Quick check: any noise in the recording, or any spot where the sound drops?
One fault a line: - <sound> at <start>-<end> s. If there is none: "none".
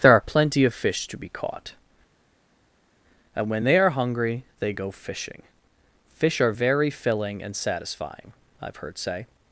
none